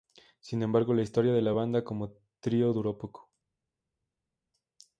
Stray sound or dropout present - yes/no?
no